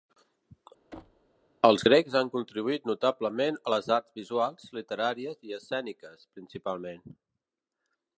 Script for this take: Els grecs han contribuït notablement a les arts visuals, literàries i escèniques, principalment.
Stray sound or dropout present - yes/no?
yes